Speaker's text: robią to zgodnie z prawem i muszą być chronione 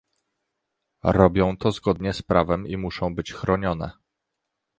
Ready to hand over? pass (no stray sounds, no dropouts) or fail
pass